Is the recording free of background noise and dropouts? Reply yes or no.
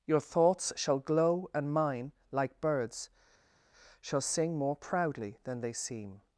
yes